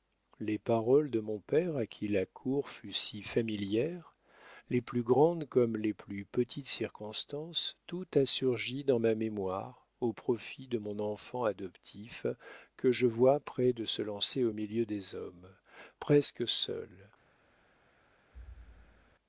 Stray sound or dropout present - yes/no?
yes